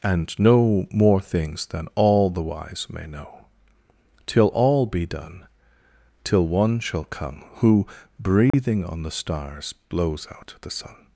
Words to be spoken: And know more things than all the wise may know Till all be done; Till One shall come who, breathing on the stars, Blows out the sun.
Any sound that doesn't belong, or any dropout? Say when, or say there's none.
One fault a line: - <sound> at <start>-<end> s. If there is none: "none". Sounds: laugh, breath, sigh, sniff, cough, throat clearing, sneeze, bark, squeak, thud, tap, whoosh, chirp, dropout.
- dropout at 8.5-8.5 s